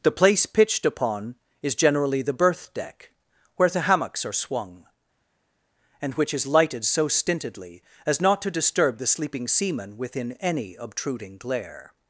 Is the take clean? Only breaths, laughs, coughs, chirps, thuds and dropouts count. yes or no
yes